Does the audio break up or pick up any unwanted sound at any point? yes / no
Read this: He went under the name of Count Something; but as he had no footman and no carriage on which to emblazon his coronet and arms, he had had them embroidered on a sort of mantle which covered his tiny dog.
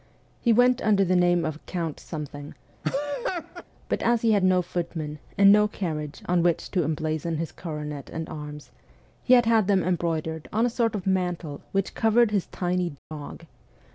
yes